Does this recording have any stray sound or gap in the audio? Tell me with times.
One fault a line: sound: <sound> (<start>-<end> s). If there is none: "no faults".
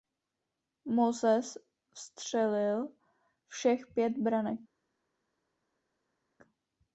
no faults